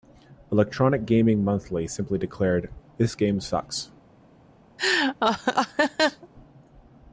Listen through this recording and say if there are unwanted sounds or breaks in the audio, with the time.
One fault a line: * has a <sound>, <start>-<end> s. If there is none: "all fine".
* has a laugh, 4.8-6.3 s